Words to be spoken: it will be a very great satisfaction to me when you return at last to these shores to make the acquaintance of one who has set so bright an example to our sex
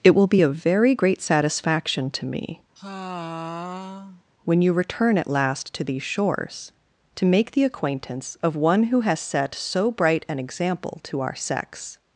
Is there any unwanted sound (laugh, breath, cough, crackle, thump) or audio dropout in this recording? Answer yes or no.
yes